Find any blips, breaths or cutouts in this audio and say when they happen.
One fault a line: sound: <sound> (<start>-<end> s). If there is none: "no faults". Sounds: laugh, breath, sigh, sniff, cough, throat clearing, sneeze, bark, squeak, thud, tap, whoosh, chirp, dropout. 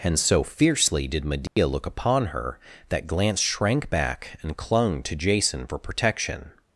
sound: dropout (1.5-1.6 s)